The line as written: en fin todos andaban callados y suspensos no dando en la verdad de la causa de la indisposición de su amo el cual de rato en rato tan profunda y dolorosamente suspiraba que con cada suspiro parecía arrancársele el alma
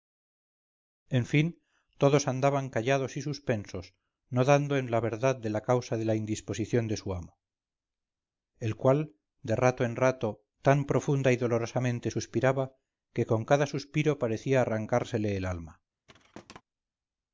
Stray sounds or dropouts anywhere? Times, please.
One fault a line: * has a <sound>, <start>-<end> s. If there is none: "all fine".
* has a thud, 16.1-16.6 s